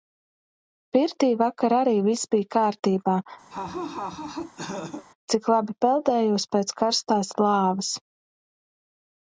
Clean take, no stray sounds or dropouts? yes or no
no